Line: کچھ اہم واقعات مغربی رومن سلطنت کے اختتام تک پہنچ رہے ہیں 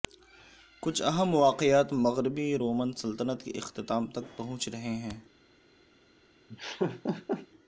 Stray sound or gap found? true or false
true